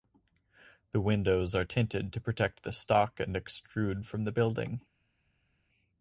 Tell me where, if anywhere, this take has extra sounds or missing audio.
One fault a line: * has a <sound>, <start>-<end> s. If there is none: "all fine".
all fine